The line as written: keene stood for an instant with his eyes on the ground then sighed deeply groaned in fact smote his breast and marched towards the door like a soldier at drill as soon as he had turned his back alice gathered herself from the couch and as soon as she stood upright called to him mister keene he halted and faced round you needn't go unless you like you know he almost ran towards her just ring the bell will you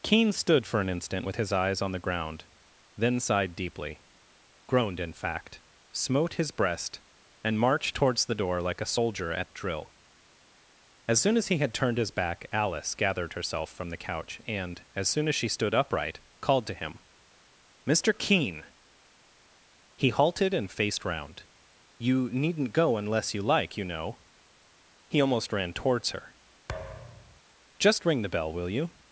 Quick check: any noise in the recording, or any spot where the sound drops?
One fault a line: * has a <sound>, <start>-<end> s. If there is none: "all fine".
* has a thud, 26.7-27.4 s